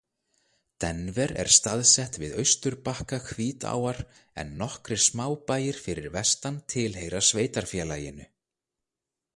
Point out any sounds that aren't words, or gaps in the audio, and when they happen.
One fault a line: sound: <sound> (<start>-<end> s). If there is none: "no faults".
no faults